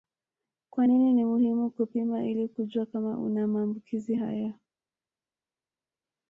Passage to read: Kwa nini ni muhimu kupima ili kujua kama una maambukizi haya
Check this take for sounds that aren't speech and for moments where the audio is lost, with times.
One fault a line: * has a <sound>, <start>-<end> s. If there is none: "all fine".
all fine